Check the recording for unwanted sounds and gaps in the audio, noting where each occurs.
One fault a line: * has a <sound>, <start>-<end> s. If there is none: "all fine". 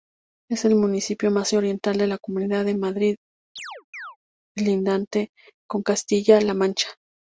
* has a chirp, 3.6-4.2 s